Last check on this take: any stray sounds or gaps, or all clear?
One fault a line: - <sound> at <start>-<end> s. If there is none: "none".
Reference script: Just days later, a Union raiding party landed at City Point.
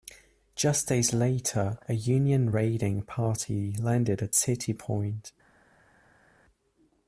none